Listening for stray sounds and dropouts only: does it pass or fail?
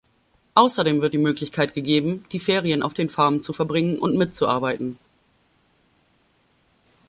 pass